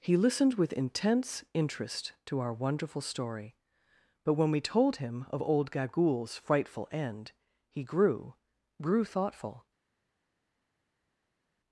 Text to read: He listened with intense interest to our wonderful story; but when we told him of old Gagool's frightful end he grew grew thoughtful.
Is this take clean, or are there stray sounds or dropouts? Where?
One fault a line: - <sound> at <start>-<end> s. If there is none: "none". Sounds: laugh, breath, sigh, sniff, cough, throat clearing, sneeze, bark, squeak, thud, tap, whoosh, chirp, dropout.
none